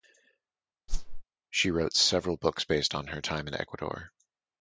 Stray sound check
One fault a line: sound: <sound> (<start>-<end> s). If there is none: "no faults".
sound: whoosh (0.9-1.2 s)